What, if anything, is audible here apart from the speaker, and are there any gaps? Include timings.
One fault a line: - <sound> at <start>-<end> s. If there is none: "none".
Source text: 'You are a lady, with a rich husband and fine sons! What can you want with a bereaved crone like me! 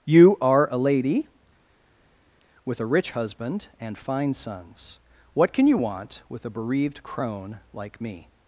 none